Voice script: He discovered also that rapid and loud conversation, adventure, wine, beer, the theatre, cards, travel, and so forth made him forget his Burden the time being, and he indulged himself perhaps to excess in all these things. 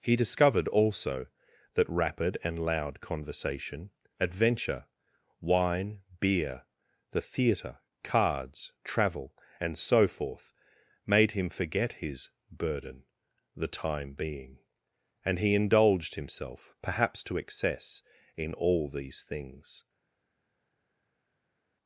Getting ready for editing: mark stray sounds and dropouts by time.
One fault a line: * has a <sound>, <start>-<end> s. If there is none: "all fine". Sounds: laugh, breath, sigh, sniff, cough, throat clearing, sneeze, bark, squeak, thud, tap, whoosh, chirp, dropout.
all fine